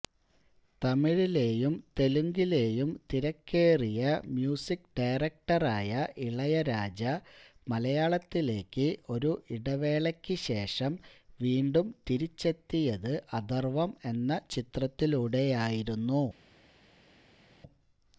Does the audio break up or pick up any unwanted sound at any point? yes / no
no